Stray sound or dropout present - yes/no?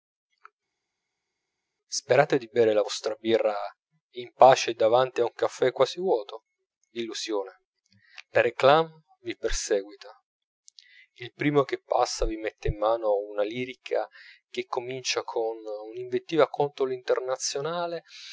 no